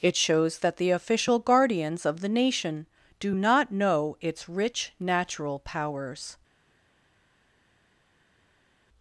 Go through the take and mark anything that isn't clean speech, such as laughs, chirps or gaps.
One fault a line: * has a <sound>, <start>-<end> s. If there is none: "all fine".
all fine